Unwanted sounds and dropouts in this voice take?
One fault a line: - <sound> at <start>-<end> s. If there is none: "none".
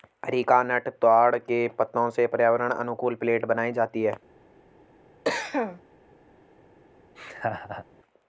- cough at 5.2-5.8 s
- laugh at 7.1-7.8 s